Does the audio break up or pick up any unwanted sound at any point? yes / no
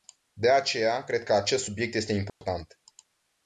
yes